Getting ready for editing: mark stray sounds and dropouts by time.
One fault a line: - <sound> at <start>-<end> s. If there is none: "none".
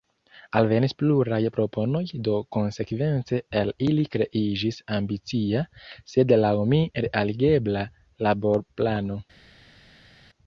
none